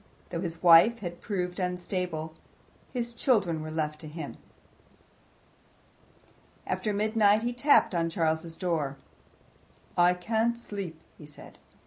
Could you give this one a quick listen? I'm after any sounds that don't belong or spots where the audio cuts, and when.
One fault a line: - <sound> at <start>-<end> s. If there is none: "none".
none